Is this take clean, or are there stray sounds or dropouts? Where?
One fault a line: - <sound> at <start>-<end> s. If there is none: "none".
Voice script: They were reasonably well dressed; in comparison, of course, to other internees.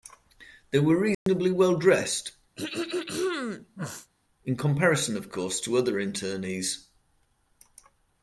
- dropout at 1.1-1.3 s
- throat clearing at 2.6-4.1 s